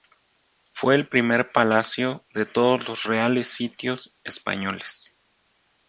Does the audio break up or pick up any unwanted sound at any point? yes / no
no